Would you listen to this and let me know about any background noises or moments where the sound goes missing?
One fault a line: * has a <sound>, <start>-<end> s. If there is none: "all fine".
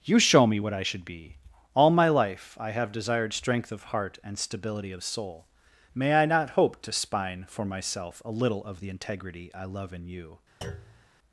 * has a thud, 10.6-11.1 s